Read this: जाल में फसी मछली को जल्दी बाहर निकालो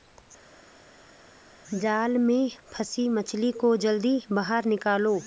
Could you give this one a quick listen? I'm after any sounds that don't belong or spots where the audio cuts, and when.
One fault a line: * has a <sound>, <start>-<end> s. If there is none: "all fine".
all fine